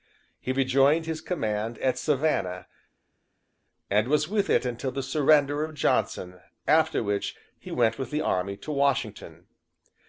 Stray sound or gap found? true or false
false